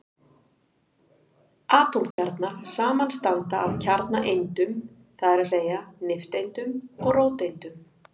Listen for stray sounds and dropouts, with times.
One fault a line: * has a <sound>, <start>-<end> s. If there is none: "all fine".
* has a dropout, 2.1-2.2 s